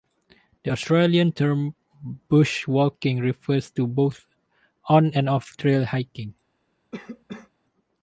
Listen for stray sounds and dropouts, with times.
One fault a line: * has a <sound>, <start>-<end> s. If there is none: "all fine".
* has a cough, 6.9-7.5 s